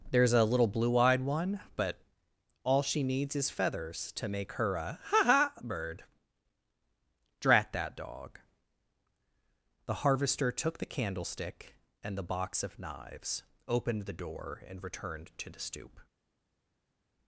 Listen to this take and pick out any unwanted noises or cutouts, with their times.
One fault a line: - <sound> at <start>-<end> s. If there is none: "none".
none